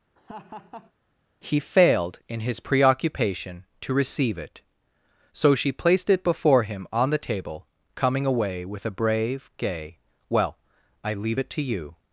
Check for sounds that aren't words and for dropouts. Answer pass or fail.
fail